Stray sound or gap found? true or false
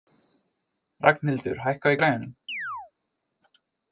true